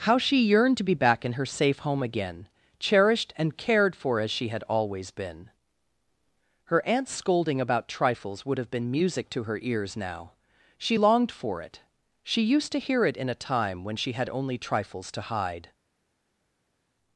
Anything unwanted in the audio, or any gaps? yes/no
no